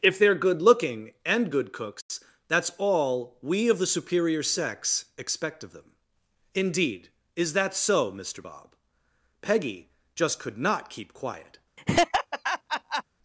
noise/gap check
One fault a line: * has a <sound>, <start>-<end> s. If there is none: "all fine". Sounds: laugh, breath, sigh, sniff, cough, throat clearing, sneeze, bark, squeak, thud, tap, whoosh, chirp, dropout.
* has a laugh, 11.8-13.0 s